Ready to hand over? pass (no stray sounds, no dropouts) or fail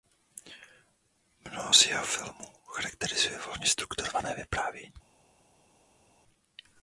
pass